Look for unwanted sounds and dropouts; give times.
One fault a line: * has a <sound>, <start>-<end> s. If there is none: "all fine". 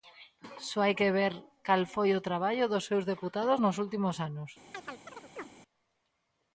* has a chirp, 4.7-5.5 s